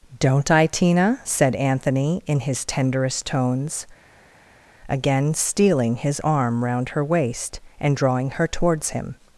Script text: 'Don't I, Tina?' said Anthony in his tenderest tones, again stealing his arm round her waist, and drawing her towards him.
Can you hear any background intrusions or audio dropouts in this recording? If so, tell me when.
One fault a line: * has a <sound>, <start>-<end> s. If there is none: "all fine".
all fine